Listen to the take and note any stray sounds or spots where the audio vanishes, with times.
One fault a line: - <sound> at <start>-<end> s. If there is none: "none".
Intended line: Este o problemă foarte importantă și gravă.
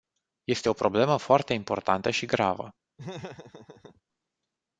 - laugh at 3.0-4.0 s